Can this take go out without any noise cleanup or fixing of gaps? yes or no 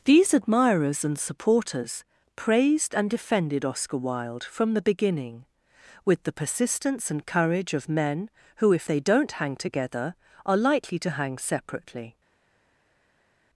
yes